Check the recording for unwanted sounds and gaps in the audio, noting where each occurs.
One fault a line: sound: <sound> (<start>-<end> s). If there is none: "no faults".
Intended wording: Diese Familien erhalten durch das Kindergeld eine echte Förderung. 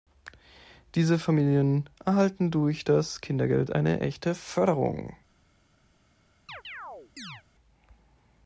sound: chirp (6.5-7.4 s)